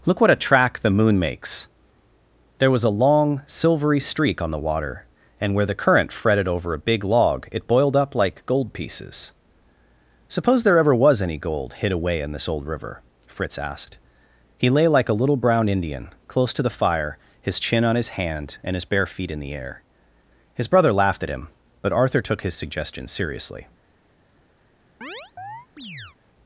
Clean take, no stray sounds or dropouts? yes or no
no